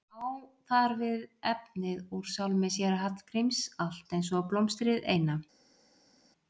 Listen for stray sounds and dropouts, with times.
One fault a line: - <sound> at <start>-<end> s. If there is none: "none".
none